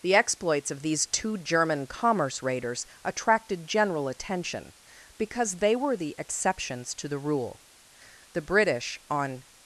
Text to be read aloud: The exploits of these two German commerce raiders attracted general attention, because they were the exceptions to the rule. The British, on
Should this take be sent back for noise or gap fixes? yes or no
no